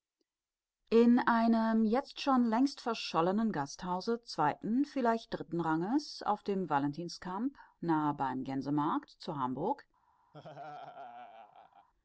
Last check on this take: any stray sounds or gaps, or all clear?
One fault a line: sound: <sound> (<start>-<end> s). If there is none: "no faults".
sound: laugh (10.3-11.9 s)